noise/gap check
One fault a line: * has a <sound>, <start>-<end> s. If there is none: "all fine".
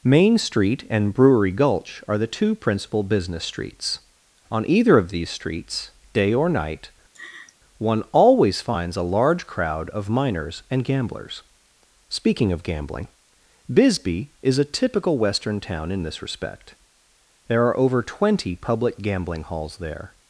* has a laugh, 7.1-7.6 s